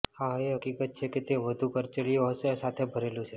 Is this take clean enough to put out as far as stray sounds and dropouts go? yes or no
yes